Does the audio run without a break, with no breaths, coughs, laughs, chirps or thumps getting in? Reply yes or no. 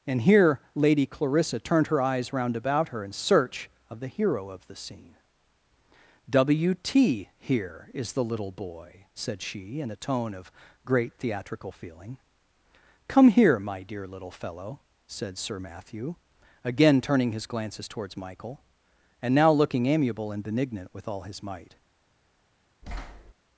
no